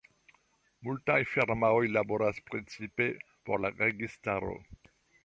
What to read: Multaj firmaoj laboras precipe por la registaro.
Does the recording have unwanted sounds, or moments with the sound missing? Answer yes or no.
no